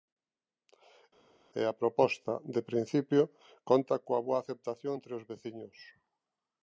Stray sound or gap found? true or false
false